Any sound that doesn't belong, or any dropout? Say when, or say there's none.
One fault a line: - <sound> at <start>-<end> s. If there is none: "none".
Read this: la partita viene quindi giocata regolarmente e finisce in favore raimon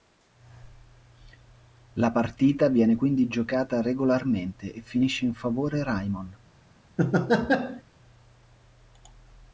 - laugh at 7.0-7.8 s